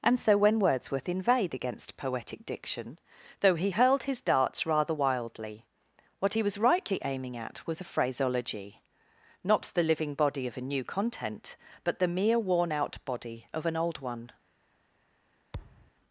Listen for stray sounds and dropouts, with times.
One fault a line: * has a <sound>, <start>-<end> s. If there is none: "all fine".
* has a thud, 15.5-15.9 s